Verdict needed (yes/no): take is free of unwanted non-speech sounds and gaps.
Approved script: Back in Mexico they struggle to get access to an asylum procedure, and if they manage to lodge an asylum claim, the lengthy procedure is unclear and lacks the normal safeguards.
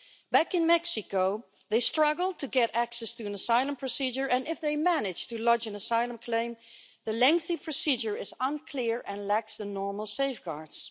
yes